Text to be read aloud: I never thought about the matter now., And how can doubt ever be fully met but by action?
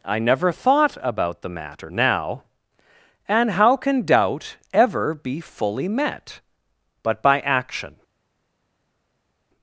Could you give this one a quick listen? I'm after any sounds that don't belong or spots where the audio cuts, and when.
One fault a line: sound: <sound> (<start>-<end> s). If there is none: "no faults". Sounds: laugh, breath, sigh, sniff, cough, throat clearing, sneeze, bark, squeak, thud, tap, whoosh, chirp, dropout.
no faults